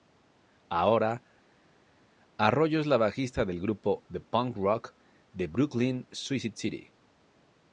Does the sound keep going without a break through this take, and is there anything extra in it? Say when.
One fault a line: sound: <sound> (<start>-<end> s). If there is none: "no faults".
no faults